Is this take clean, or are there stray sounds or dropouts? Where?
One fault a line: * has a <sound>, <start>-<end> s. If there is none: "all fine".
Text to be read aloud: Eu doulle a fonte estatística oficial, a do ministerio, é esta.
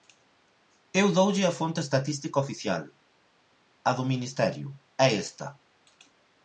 all fine